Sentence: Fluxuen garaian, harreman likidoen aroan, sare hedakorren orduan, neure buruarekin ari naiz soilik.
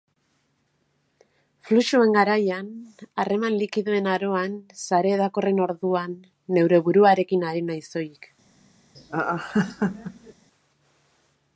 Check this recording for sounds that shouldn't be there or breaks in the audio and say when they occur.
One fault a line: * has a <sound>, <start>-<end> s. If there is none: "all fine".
* has a laugh, 8.9-10.3 s